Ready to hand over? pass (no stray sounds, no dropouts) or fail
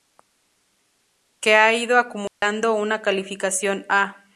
fail